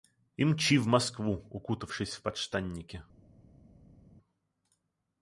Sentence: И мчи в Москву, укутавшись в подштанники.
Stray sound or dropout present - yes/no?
no